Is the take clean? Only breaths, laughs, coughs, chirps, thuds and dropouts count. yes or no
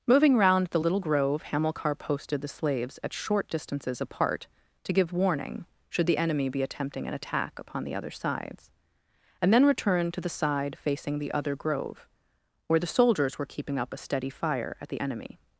yes